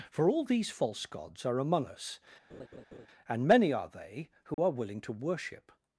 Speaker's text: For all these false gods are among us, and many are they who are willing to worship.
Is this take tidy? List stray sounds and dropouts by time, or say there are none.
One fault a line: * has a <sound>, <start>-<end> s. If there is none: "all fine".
* has a laugh, 2.5-3.1 s
* has a dropout, 4.5-4.6 s